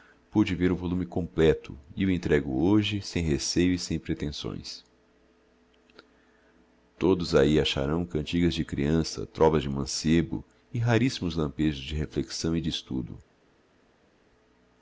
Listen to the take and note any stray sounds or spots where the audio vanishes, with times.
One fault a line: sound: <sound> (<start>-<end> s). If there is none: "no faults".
no faults